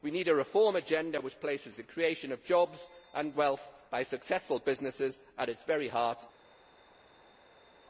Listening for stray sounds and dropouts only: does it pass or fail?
pass